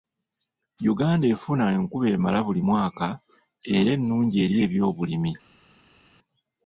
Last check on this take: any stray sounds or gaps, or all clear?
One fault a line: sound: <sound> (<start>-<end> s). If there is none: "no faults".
no faults